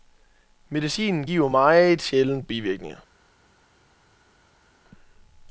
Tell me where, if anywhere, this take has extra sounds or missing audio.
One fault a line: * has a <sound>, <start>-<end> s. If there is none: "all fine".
all fine